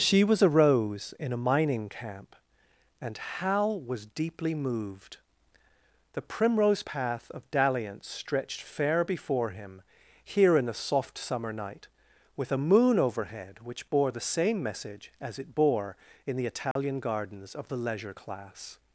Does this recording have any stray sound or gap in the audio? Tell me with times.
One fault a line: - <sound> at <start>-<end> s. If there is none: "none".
- dropout at 16.7-16.8 s